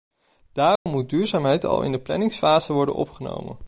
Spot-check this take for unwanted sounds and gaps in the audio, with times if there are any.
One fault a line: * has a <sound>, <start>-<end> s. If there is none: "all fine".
* has a dropout, 0.8-0.9 s